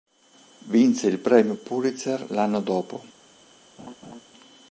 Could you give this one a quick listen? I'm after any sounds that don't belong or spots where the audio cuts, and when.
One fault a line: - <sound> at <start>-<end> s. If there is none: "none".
- laugh at 3.8-4.2 s